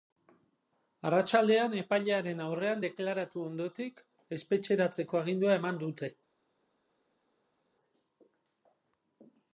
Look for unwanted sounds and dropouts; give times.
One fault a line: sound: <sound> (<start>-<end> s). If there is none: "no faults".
no faults